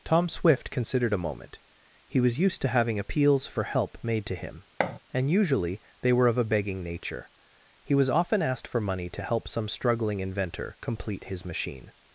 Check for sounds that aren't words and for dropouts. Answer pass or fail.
fail